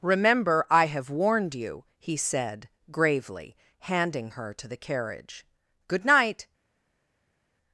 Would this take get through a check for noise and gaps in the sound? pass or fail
pass